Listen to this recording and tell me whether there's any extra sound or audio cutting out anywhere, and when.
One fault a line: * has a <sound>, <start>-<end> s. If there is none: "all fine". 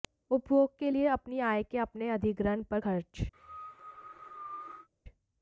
* has a cough, 3.3-4.9 s